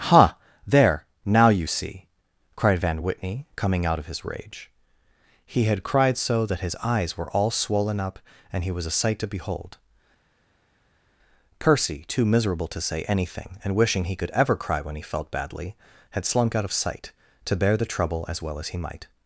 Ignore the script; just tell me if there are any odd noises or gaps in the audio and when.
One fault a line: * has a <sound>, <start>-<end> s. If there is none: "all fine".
all fine